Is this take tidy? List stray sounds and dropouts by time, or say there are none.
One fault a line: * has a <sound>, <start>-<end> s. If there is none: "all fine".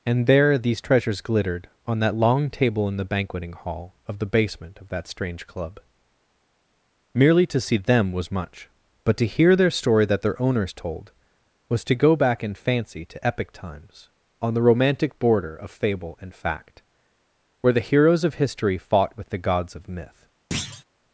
* has a thud, 20.5-20.8 s